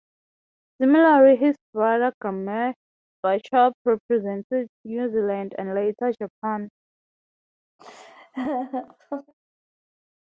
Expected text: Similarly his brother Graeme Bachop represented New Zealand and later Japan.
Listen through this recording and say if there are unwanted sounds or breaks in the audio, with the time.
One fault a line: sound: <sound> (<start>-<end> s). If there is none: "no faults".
sound: laugh (7.8-9.3 s)